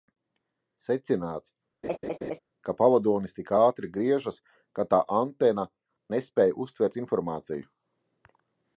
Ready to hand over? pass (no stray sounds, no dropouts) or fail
fail